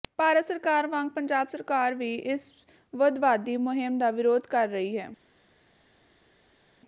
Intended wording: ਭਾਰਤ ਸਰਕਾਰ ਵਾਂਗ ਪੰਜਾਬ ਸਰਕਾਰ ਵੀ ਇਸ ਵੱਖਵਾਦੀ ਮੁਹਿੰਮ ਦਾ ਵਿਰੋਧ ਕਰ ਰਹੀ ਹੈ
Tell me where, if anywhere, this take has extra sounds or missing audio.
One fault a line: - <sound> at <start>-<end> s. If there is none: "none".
none